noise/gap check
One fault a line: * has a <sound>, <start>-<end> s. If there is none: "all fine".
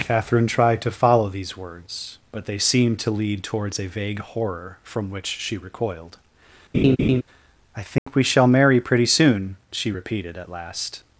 * has a laugh, 6.7-7.2 s
* has a dropout, 8.0-8.1 s